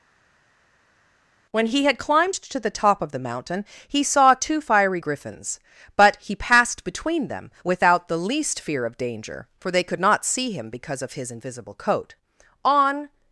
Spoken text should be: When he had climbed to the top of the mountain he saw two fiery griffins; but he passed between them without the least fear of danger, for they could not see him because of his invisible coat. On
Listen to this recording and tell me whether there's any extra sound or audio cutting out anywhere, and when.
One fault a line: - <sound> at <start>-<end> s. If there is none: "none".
none